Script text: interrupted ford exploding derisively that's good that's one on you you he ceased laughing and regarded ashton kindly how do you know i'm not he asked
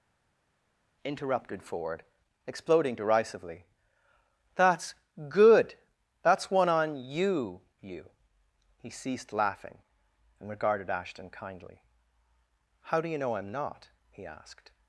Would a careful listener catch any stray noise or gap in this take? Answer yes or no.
no